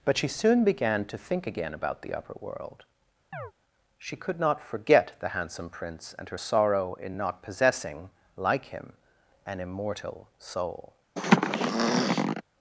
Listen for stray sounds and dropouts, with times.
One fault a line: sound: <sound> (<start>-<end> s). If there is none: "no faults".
sound: chirp (3.3-3.5 s)
sound: throat clearing (11.2-12.4 s)